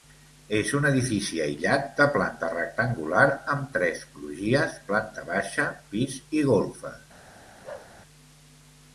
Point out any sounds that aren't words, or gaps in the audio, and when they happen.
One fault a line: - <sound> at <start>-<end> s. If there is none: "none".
- bark at 7.6-7.9 s